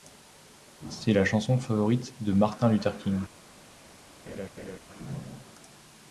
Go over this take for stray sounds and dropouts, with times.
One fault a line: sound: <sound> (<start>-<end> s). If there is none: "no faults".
sound: laugh (4.3-4.8 s)